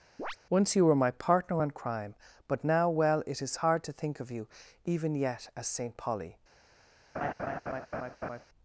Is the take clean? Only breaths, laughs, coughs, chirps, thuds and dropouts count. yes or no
no